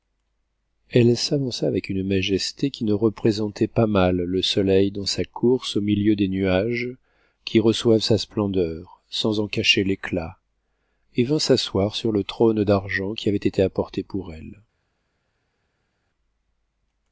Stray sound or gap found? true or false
false